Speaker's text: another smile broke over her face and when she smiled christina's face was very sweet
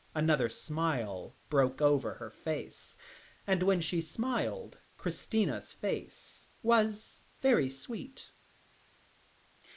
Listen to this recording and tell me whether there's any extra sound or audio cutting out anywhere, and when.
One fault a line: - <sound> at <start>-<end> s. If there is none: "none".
none